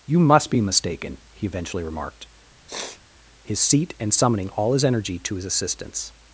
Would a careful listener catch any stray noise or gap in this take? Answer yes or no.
yes